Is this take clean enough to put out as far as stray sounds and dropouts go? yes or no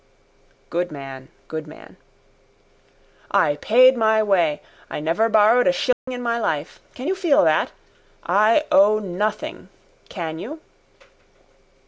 no